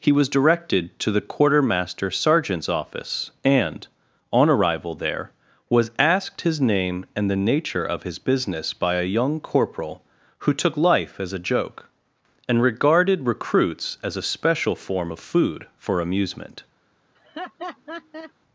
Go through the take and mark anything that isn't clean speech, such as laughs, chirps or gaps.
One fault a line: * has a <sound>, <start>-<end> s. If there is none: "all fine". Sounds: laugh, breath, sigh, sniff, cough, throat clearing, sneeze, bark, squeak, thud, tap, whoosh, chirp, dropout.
* has a laugh, 17.1-18.3 s